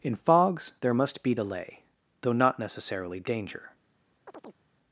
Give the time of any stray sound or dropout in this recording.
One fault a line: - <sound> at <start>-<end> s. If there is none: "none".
- chirp at 4.3-4.6 s